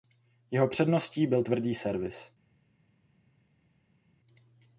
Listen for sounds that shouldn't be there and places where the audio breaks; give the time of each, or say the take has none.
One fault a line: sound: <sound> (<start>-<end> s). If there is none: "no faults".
no faults